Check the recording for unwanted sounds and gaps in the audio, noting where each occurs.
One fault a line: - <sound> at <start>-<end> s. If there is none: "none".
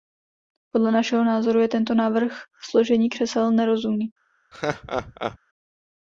- laugh at 4.5-5.4 s